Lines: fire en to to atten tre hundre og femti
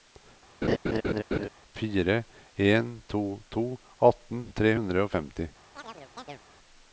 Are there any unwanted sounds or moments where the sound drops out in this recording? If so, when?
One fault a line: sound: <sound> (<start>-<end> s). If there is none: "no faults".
sound: laugh (0.6-1.5 s)
sound: chirp (5.8-6.4 s)